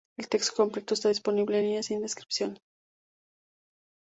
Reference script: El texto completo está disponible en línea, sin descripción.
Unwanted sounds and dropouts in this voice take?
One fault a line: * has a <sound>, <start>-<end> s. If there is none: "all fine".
all fine